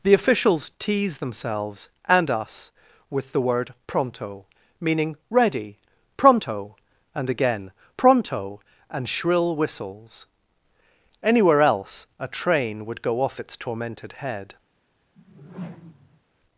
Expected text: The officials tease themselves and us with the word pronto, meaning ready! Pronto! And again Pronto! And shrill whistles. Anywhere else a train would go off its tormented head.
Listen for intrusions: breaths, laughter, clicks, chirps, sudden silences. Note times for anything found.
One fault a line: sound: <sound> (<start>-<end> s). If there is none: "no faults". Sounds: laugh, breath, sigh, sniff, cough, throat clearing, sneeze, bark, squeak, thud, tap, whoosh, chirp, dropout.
sound: whoosh (15.2-16.2 s)